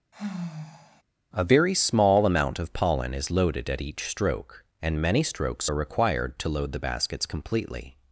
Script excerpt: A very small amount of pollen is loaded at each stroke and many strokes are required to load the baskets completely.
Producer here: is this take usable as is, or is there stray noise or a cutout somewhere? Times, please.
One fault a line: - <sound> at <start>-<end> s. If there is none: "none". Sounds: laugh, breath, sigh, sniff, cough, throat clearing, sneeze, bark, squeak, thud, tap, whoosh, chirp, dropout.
- sigh at 0.1-1.0 s